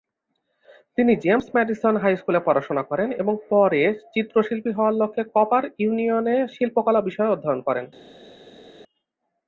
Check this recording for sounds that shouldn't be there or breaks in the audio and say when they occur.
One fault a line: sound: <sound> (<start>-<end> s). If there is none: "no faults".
no faults